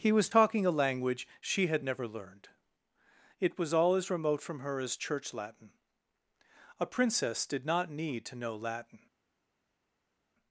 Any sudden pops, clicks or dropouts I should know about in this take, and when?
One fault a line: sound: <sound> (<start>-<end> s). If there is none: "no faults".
no faults